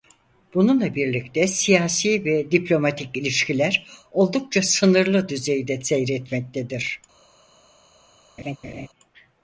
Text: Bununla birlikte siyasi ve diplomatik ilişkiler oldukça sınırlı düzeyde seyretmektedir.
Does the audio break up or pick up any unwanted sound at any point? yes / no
yes